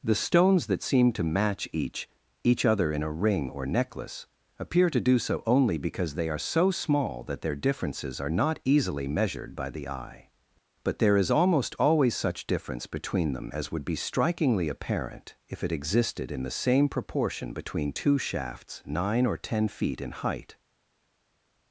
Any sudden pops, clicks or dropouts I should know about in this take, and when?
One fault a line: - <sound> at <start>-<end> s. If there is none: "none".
none